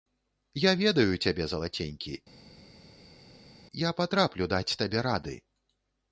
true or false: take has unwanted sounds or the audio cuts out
false